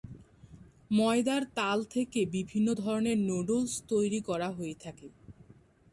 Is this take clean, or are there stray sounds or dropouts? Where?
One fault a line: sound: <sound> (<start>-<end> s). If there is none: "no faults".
no faults